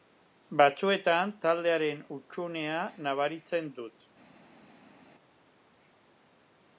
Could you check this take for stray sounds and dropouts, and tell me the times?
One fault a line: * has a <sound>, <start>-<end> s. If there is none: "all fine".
all fine